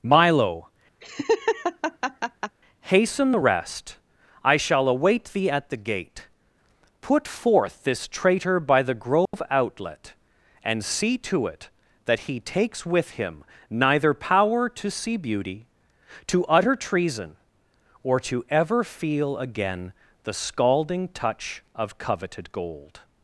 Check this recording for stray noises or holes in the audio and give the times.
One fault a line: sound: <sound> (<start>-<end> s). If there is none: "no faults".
sound: laugh (1.0-2.6 s)
sound: dropout (9.3-9.3 s)